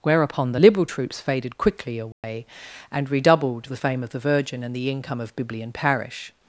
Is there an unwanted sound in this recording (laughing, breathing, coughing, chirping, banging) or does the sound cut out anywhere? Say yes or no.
yes